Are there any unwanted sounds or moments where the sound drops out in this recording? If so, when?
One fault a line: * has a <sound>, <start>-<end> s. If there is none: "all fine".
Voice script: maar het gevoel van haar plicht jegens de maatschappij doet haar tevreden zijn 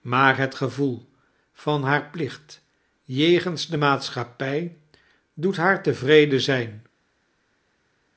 all fine